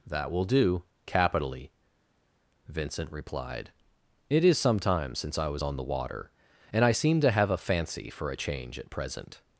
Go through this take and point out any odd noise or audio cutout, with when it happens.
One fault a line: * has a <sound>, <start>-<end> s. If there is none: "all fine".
all fine